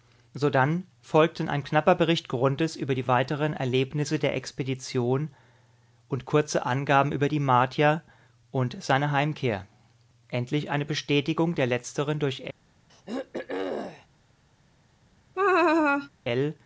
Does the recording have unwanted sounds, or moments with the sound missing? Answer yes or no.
yes